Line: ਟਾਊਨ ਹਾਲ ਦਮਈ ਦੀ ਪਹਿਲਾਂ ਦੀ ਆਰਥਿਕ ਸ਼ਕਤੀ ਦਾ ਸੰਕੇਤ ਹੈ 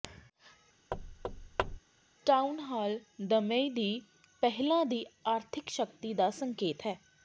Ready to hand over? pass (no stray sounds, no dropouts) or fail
fail